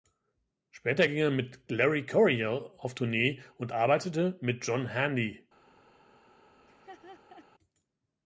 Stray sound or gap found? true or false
true